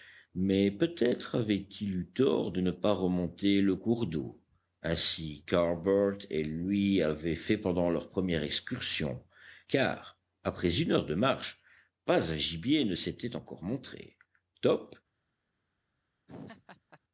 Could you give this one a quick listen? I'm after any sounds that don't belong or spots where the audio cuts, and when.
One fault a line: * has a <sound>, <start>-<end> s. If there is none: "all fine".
* has a laugh, 16.3-17.0 s